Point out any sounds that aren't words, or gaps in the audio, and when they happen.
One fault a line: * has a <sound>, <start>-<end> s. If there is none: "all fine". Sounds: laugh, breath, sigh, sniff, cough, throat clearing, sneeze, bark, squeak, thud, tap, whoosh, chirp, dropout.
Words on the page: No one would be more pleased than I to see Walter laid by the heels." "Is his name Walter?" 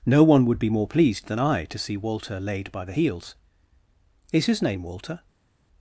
all fine